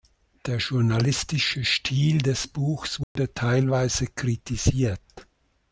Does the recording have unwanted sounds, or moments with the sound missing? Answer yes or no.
yes